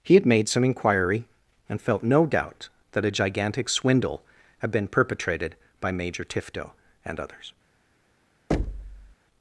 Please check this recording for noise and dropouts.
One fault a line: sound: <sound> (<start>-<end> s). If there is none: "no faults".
sound: thud (8.5-9.2 s)